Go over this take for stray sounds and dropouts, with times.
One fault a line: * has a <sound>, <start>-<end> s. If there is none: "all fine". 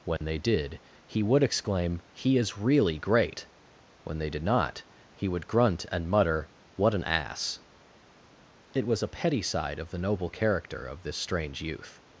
* has a dropout, 0.2-0.2 s